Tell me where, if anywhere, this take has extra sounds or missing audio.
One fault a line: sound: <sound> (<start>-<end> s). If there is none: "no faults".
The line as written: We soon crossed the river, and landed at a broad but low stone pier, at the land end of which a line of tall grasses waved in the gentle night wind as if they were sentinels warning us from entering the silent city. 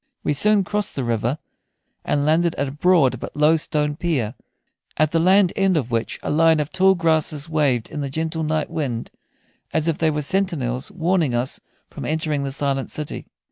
no faults